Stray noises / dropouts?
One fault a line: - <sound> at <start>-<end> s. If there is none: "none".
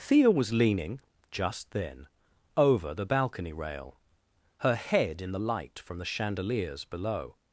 none